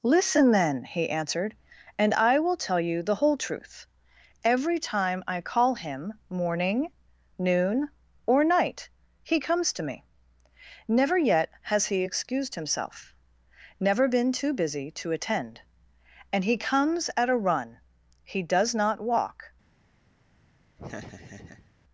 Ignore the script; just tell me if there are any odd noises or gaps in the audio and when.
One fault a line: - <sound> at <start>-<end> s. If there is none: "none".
- laugh at 20.8-21.7 s